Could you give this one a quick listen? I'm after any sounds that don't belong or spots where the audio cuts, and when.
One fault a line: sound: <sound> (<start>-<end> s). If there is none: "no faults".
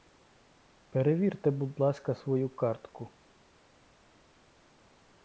no faults